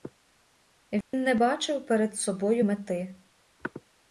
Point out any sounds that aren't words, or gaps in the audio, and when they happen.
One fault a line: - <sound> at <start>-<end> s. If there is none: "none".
- dropout at 1.0-1.1 s